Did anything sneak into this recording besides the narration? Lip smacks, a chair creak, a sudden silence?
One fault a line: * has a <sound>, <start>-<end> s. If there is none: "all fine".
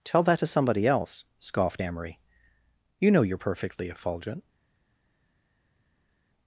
all fine